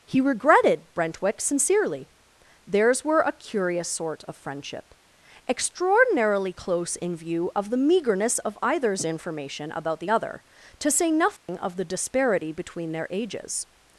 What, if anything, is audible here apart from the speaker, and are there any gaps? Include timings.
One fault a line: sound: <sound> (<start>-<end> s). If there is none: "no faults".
sound: dropout (11.4-11.5 s)